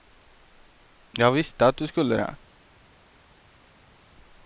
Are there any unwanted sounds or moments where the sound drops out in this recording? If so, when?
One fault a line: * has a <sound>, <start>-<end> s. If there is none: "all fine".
all fine